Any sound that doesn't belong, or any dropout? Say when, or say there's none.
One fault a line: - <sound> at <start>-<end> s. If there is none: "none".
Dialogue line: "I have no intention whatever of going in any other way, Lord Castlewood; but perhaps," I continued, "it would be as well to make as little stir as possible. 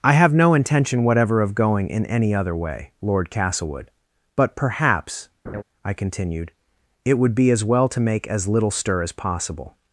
- laugh at 5.5-5.6 s